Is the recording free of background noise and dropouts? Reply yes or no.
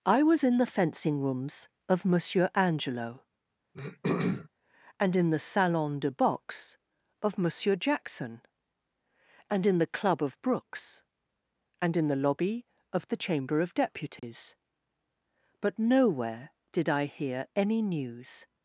no